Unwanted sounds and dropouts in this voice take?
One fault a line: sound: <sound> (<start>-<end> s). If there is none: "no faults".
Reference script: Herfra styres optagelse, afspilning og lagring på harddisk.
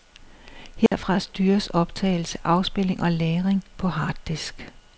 sound: dropout (0.9-0.9 s)